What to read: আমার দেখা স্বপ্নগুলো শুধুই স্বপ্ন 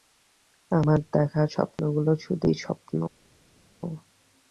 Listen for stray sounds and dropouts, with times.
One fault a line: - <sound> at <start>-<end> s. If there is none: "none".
none